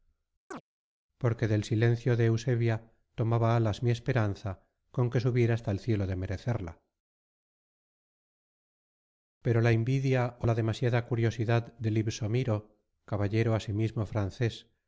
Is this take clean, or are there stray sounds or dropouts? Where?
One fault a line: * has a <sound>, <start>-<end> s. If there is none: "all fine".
* has a chirp, 0.5-0.6 s